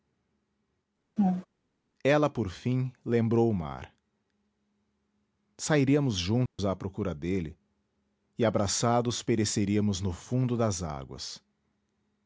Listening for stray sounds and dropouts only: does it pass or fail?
fail